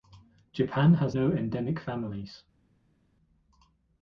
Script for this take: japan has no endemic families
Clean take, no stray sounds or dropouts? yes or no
yes